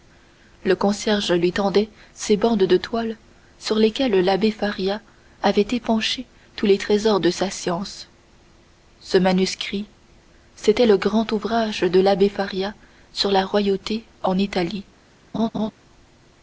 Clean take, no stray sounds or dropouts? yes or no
no